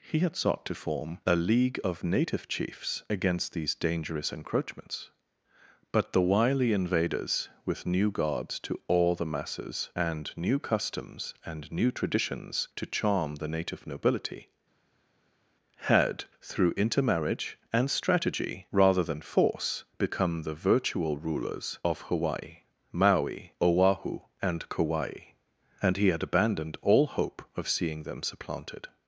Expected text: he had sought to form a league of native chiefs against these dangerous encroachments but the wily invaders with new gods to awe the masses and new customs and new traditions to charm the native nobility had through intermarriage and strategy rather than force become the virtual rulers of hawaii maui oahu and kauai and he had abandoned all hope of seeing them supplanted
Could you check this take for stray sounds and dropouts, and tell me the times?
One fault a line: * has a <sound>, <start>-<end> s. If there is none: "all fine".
all fine